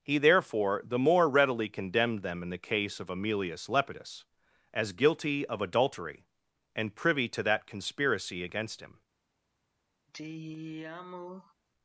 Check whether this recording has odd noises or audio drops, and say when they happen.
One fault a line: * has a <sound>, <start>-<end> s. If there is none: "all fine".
* has a sigh, 10.1-11.5 s